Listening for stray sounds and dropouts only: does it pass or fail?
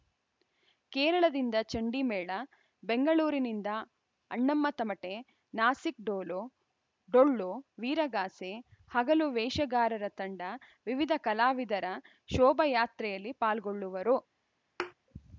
fail